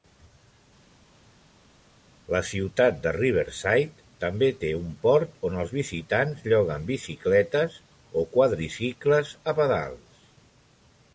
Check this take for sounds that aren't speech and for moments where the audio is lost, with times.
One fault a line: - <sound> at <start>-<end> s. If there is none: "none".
none